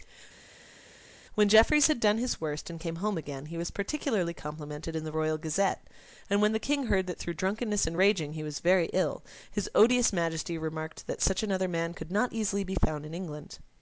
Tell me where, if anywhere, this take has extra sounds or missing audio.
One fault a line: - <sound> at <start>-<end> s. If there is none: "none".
none